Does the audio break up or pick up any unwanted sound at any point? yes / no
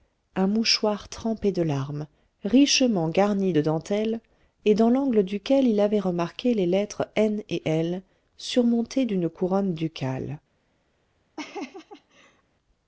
yes